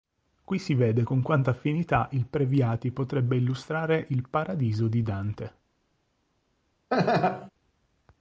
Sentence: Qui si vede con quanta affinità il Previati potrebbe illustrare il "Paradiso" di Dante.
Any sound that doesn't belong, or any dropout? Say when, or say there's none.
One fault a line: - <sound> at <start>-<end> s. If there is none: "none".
- laugh at 6.9-7.5 s